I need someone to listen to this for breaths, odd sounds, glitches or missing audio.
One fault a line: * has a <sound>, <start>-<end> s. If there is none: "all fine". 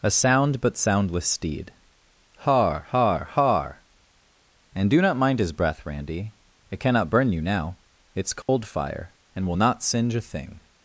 * has a dropout, 8.4-8.5 s